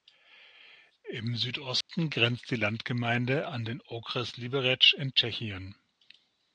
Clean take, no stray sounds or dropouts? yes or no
no